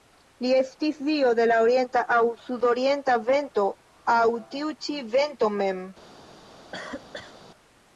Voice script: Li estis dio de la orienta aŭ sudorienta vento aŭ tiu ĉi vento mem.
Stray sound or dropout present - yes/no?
yes